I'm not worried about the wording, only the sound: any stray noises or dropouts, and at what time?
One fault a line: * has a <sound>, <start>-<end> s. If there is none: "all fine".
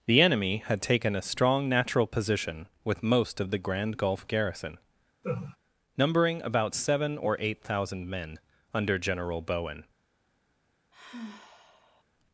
* has a laugh, 5.2-5.6 s
* has a sigh, 10.9-12.0 s